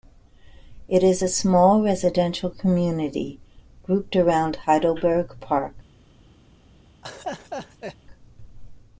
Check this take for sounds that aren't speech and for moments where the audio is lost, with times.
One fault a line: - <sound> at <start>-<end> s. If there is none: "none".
- laugh at 7.0-8.0 s